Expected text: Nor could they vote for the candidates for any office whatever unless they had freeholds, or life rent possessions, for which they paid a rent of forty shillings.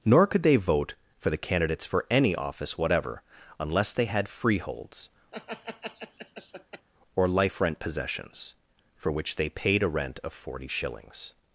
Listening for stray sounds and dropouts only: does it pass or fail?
fail